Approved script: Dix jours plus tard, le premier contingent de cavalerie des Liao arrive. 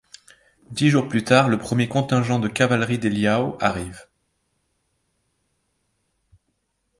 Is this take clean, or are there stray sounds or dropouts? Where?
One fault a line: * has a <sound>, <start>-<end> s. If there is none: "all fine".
all fine